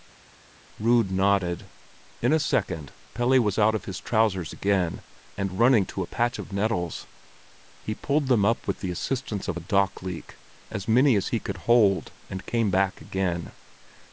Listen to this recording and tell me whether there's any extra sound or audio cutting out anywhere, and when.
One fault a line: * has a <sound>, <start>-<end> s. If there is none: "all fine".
all fine